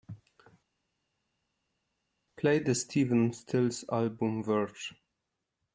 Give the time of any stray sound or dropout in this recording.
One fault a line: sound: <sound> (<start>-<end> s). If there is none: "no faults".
no faults